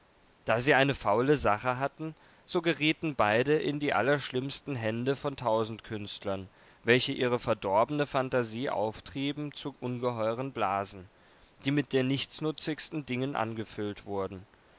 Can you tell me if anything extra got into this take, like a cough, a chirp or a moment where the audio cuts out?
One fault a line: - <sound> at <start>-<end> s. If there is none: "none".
none